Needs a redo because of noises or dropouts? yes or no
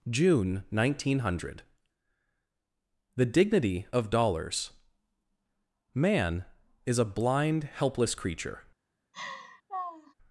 yes